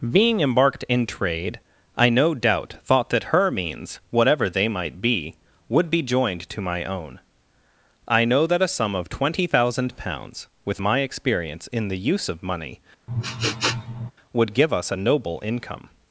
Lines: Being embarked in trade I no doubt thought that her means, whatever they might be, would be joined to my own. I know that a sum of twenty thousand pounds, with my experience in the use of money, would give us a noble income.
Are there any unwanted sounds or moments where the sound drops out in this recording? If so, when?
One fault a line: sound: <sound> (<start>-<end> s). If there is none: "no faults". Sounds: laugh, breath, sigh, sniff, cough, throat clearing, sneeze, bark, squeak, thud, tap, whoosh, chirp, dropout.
sound: sniff (13.1-14.1 s)